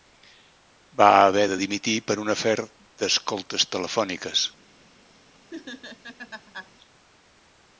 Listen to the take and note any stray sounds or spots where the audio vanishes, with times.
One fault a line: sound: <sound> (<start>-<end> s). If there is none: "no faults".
sound: laugh (5.5-6.7 s)